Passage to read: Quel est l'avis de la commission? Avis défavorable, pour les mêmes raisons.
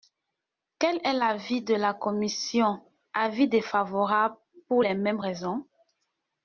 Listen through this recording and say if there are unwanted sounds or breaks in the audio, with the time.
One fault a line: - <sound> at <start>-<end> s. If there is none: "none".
none